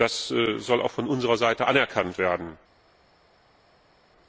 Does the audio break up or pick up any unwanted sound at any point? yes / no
no